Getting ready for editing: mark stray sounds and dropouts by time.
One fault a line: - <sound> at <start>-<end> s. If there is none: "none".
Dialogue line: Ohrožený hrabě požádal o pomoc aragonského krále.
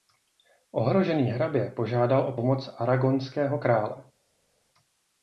none